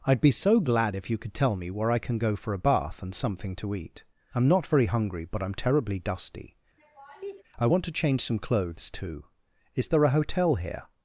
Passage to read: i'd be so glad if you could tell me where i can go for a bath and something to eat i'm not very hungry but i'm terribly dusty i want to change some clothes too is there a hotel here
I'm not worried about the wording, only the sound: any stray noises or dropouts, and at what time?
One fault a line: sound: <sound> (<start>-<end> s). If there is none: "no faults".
sound: laugh (6.8-7.4 s)